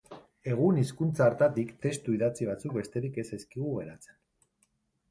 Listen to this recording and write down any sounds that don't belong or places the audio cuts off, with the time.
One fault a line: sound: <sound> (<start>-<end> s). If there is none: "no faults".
no faults